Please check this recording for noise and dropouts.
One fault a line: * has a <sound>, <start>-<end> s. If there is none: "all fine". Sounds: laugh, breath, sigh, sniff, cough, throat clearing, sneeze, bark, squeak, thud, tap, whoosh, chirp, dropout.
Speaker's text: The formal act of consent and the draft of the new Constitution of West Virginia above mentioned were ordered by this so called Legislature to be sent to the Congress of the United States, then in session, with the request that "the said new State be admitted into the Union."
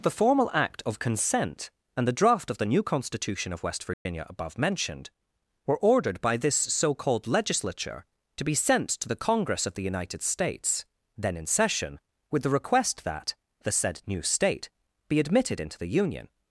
* has a dropout, 3.9-4.1 s